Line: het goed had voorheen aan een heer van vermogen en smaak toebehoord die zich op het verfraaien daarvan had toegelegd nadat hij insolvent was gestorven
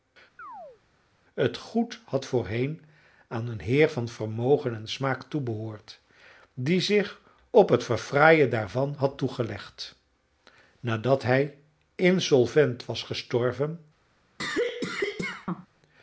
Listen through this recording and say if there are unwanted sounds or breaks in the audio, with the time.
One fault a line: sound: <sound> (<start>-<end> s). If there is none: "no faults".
sound: chirp (0.4-0.8 s)
sound: cough (14.4-15.7 s)